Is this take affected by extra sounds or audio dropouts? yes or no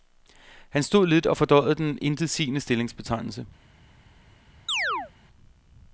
yes